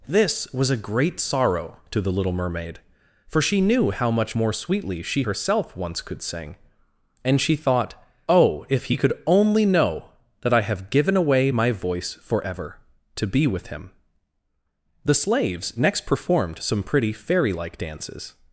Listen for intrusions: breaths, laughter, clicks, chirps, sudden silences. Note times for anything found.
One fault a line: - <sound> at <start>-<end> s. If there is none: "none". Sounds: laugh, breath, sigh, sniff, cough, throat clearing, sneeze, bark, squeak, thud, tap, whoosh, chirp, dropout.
none